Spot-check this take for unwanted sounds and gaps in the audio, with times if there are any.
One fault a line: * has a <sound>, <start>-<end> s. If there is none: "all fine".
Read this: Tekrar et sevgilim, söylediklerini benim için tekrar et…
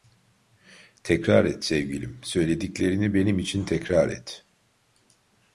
all fine